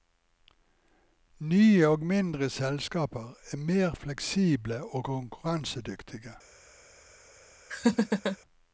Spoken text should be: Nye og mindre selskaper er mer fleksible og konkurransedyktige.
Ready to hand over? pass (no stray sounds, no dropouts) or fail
fail